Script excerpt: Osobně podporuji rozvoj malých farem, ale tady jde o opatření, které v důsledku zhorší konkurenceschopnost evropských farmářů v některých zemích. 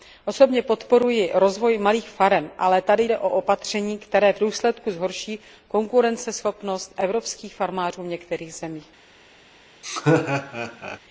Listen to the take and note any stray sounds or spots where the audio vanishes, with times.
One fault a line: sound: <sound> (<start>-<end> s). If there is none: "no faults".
sound: laugh (9.8-11.0 s)